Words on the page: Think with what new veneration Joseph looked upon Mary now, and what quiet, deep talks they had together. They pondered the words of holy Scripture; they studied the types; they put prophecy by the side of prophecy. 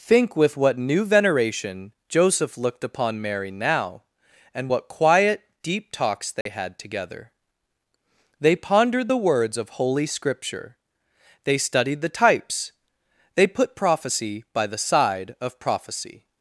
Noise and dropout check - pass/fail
fail